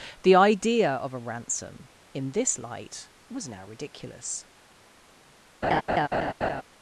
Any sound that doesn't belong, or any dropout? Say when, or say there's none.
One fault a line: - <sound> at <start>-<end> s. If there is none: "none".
- laugh at 5.6-6.6 s